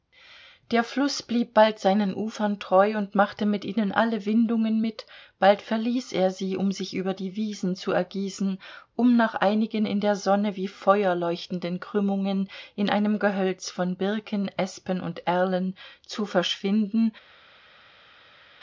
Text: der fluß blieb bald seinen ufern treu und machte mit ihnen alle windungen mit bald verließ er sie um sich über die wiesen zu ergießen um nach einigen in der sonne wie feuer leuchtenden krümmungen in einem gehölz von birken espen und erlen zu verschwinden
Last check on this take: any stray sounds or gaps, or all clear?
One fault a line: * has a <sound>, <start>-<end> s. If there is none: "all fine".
all fine